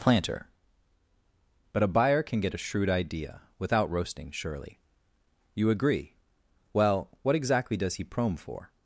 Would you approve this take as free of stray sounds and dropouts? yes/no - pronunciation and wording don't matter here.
yes